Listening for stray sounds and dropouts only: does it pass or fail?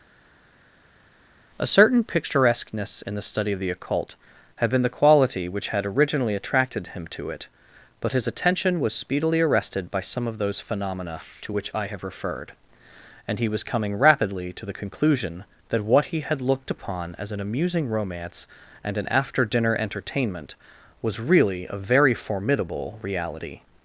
pass